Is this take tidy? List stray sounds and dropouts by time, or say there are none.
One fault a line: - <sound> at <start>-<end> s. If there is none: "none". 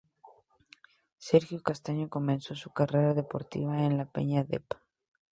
none